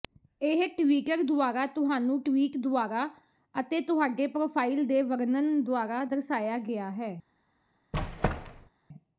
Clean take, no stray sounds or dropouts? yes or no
no